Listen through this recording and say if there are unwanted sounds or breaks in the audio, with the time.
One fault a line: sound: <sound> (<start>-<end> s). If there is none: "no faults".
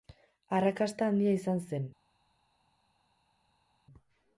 no faults